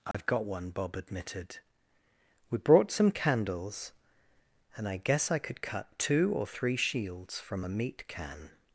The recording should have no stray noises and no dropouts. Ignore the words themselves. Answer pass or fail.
fail